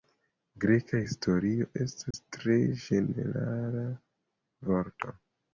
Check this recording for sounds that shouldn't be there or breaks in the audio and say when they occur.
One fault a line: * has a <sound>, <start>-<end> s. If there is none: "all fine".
* has a dropout, 2.1-2.1 s